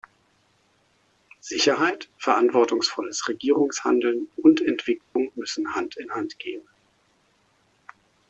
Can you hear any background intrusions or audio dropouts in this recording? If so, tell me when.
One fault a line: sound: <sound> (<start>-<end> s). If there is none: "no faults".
sound: dropout (5.0-5.2 s)